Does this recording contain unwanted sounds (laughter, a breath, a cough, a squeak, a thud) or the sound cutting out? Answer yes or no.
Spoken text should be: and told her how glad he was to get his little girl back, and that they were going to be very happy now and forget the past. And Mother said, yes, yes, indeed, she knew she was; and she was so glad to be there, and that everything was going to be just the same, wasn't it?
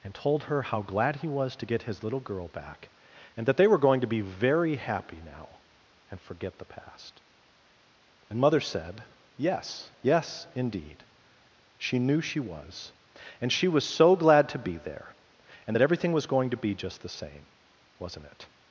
no